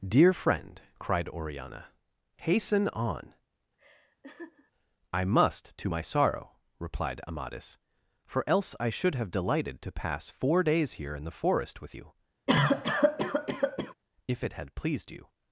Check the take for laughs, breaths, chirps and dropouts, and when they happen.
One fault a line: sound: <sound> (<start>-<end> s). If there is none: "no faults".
sound: laugh (3.8-4.7 s)
sound: cough (12.5-13.9 s)